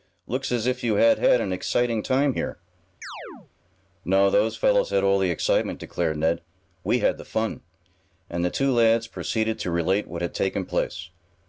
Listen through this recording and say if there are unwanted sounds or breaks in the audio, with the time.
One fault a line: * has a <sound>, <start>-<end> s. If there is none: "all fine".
* has a chirp, 3.0-3.5 s